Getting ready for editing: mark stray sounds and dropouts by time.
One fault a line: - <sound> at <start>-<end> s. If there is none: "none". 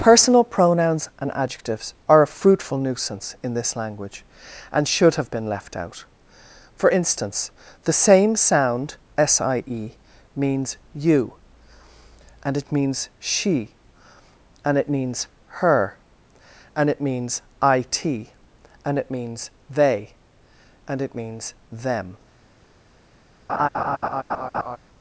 - laugh at 23.5-24.8 s